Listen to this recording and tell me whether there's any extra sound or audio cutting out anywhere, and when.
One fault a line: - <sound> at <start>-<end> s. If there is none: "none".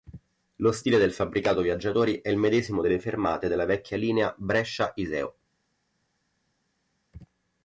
none